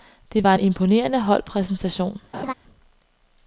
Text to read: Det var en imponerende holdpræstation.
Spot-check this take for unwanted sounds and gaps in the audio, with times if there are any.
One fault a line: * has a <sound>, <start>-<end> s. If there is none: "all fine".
* has a laugh, 2.3-2.5 s